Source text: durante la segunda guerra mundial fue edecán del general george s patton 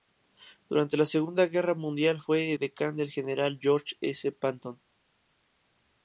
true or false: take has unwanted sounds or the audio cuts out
false